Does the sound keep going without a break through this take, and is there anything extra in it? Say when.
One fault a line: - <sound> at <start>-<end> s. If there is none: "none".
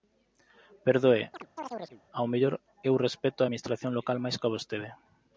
- chirp at 1.3-2.0 s